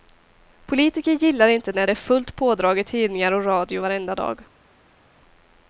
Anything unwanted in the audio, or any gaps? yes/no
no